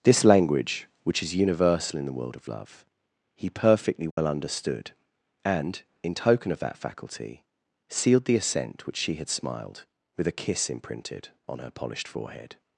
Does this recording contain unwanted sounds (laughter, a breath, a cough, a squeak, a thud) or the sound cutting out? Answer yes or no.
yes